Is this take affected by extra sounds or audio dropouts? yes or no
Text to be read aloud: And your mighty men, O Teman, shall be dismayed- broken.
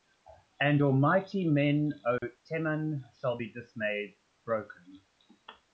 yes